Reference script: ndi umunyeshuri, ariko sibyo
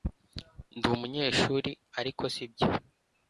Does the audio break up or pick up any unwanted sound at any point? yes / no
no